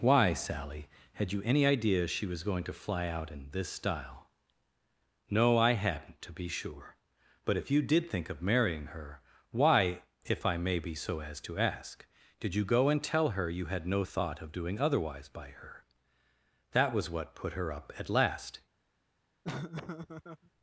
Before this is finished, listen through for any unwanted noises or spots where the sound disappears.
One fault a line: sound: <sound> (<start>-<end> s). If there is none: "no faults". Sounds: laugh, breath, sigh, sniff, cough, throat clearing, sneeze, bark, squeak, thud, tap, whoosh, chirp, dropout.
sound: laugh (19.4-20.5 s)